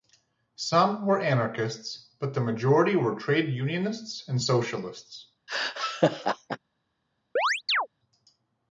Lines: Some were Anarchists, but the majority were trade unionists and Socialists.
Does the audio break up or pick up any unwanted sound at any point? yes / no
yes